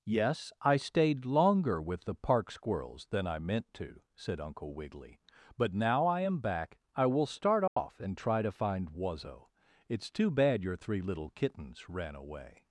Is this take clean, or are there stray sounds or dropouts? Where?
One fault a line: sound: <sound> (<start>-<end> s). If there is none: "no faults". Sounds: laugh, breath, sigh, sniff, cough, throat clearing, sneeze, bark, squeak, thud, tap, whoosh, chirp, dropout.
sound: dropout (7.7-7.8 s)